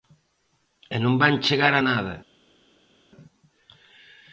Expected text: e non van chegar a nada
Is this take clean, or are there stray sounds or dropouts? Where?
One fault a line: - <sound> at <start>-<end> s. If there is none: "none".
none